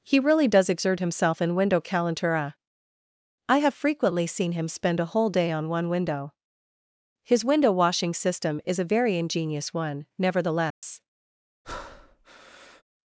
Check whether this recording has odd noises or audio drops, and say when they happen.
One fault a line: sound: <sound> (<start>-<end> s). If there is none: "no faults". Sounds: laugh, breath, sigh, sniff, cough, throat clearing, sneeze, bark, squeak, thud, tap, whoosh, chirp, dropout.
sound: dropout (10.7-10.8 s)
sound: breath (11.6-12.8 s)